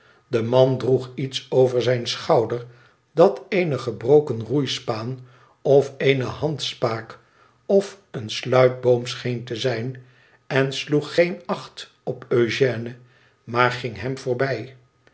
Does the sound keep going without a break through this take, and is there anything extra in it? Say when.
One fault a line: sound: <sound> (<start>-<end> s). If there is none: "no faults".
no faults